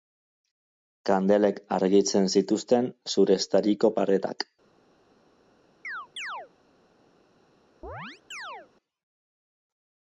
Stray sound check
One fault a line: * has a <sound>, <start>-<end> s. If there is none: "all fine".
* has a chirp, 5.8-6.5 s
* has a chirp, 7.8-8.7 s